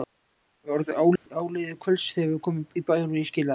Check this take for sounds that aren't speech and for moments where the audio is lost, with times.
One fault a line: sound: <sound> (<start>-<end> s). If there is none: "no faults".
sound: dropout (1.2-1.3 s)